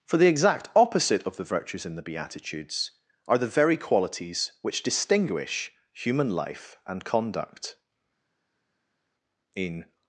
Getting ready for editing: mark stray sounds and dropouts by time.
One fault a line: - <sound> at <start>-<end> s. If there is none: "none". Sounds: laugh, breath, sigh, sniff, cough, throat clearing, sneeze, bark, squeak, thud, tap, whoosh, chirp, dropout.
none